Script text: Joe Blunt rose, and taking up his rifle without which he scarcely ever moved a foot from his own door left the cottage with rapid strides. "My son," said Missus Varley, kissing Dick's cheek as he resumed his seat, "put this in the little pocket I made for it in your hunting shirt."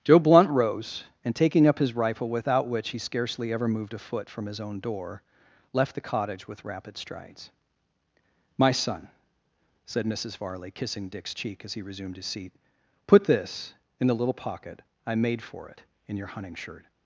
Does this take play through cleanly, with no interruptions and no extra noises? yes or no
yes